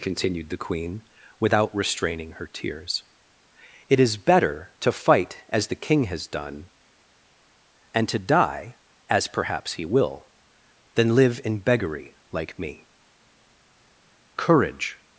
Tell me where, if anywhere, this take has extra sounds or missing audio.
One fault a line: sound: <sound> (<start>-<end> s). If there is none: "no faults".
no faults